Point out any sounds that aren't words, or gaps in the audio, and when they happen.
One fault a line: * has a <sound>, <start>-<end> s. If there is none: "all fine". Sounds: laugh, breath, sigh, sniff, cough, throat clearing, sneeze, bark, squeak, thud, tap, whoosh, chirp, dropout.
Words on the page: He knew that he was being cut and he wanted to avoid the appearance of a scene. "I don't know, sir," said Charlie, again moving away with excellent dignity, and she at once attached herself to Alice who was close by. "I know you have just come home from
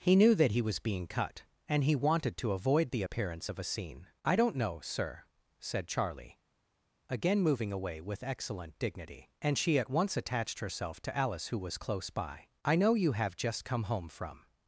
all fine